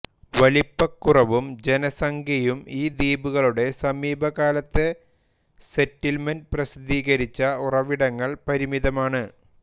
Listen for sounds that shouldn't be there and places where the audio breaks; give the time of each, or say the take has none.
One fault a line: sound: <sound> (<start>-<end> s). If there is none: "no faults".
no faults